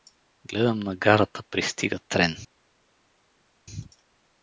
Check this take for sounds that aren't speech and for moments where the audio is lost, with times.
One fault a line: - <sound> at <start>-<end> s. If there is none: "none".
none